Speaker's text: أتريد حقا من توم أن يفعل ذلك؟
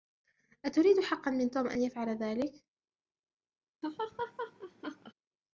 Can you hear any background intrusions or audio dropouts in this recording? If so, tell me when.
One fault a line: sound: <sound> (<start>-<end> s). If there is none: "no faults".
sound: laugh (3.8-5.1 s)